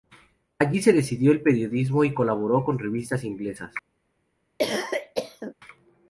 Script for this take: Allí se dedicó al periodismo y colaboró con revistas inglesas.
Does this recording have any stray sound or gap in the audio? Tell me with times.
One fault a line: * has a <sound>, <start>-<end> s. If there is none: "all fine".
* has a cough, 4.6-5.5 s